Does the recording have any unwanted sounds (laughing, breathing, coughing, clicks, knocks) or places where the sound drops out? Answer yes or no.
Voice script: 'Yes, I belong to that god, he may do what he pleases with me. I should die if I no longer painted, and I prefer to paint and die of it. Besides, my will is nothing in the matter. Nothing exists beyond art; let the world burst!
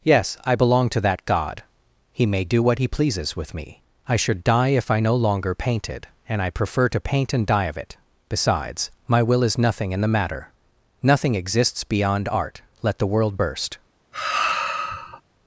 yes